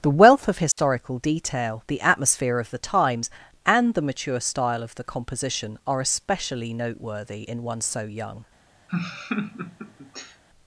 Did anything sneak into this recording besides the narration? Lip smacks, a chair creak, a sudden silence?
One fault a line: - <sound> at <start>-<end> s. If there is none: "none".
- dropout at 0.7-0.8 s
- laugh at 8.9-10.4 s